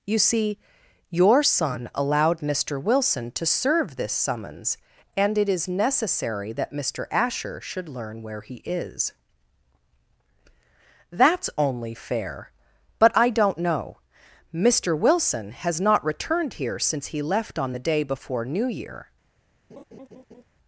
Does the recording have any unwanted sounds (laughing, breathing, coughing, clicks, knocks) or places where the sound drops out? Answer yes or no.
yes